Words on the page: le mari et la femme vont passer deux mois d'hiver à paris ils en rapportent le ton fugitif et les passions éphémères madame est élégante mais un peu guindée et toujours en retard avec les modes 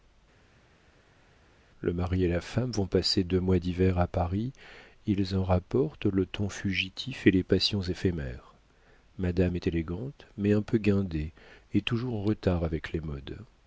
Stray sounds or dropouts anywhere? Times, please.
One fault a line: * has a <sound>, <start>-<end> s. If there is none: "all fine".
all fine